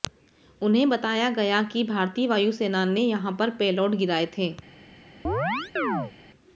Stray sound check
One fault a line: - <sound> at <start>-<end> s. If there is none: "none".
- chirp at 5.2-6.1 s